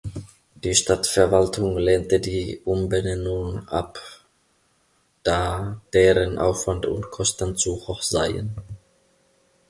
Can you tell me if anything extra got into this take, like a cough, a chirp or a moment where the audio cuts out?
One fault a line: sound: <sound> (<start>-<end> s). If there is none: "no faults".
no faults